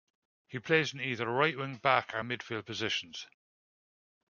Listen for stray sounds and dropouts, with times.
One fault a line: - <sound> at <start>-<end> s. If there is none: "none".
none